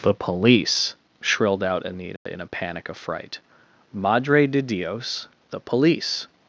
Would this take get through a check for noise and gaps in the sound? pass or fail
fail